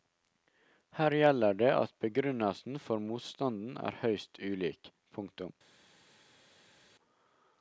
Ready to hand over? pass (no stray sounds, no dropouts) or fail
pass